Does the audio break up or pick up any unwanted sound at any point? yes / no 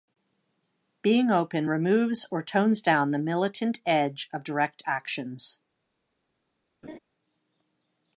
yes